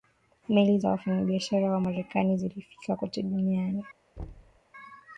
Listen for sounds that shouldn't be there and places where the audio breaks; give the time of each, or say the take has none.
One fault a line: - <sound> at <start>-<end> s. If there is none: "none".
- thud at 4.2-4.6 s